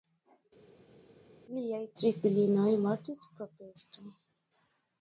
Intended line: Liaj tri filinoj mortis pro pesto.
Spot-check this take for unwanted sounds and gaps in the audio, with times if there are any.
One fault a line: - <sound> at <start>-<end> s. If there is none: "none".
none